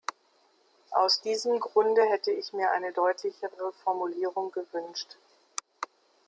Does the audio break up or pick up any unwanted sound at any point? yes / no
no